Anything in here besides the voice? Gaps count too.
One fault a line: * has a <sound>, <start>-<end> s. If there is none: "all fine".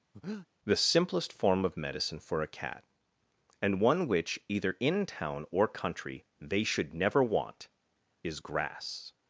* has a breath, 0.1-0.5 s